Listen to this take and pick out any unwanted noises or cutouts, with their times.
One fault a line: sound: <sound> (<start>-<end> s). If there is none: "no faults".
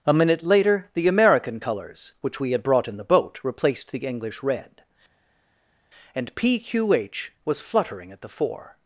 no faults